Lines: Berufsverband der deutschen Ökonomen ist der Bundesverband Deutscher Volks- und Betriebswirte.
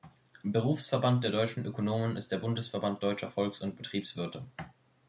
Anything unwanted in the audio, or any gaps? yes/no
no